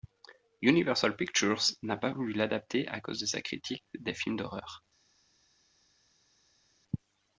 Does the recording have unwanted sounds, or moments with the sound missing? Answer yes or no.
no